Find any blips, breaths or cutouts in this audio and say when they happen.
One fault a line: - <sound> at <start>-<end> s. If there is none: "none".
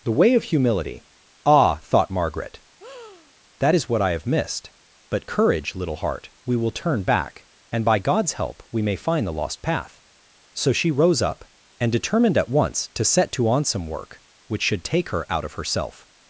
- breath at 2.8-3.3 s